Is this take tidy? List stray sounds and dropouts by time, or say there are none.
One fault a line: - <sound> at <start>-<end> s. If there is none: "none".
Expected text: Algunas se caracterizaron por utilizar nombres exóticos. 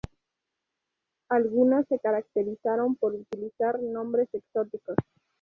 none